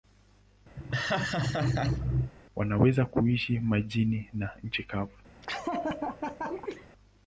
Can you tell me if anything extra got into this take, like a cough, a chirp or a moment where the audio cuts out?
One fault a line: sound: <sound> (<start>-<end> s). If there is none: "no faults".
sound: laugh (0.8-2.3 s)
sound: laugh (5.4-6.9 s)